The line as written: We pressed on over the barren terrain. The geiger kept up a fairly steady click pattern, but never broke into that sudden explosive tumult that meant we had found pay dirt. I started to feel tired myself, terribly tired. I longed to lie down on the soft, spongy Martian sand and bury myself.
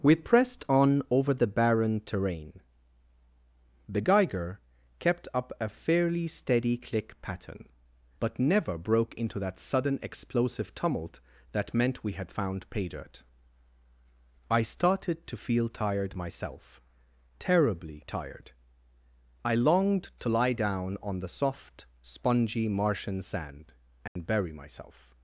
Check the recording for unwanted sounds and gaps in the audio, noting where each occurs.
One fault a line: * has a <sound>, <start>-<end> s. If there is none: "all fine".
* has a dropout, 24.1-24.2 s